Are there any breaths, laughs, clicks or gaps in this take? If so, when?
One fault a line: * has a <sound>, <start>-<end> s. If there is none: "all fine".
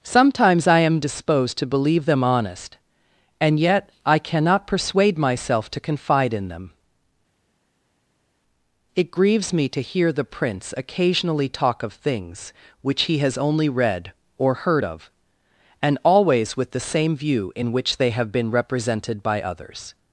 all fine